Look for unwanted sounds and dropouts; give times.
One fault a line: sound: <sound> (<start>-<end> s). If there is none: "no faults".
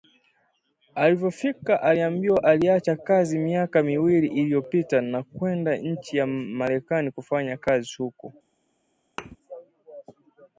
sound: thud (9.2-9.4 s)